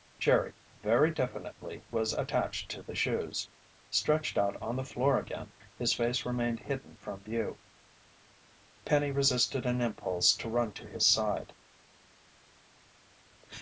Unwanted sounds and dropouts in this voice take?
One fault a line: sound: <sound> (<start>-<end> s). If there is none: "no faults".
no faults